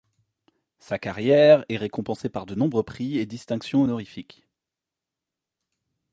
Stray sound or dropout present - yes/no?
no